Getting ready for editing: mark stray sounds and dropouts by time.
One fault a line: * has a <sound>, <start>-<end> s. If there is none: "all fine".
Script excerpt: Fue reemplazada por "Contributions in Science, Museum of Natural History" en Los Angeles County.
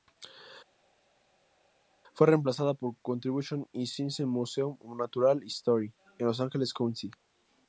all fine